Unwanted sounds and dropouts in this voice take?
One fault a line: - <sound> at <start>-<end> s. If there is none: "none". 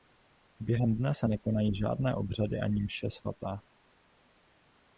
none